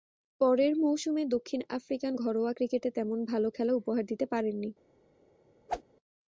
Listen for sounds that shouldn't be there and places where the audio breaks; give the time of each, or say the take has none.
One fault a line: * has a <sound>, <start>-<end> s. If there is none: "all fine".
* has a whoosh, 5.7-5.8 s